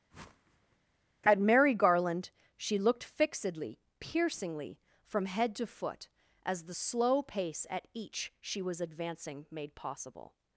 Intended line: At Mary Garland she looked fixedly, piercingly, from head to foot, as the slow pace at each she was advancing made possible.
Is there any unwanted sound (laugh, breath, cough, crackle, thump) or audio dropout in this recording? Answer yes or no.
yes